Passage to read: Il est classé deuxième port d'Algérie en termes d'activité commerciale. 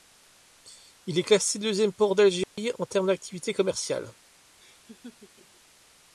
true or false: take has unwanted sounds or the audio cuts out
true